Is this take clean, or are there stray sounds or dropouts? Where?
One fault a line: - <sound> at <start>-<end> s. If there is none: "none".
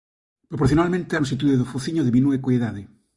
none